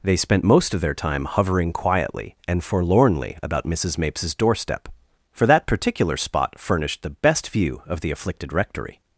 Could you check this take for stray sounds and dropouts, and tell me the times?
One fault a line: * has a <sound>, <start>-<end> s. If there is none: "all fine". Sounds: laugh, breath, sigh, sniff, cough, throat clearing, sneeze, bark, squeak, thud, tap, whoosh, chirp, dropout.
all fine